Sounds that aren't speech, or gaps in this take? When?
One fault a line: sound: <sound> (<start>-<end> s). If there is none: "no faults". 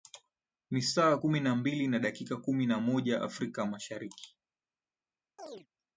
sound: chirp (5.4-5.7 s)